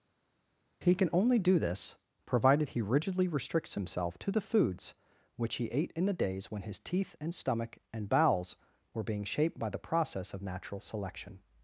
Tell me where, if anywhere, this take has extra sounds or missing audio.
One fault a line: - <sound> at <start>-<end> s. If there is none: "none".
none